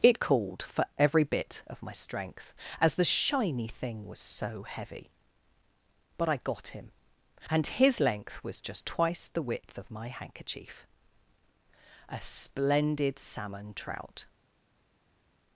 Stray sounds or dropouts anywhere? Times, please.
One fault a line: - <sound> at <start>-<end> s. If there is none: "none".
none